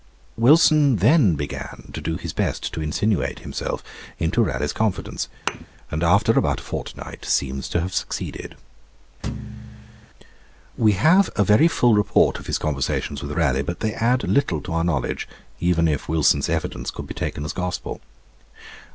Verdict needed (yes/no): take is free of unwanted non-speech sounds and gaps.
no